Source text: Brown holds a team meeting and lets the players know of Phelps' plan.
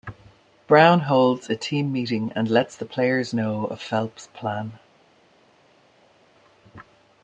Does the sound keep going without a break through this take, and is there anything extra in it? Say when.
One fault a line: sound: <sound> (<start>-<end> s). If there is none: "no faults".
no faults